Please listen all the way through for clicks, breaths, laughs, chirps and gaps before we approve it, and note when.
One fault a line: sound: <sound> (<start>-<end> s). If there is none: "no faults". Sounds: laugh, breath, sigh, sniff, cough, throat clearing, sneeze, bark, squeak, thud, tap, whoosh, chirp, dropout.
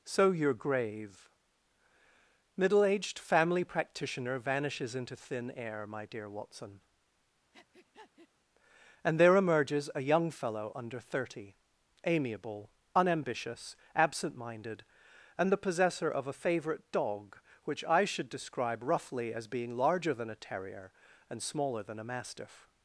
sound: breath (7.5-8.3 s)